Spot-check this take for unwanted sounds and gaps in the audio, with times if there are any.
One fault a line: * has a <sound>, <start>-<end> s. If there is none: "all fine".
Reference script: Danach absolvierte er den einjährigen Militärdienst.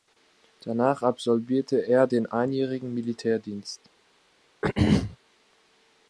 * has a throat clearing, 4.6-5.2 s